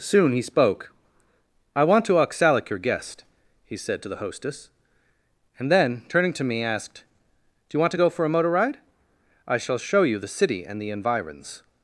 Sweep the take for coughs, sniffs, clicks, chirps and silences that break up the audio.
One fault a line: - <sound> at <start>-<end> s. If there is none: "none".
none